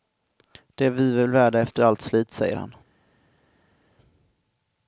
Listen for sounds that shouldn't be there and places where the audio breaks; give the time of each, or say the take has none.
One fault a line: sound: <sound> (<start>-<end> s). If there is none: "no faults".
no faults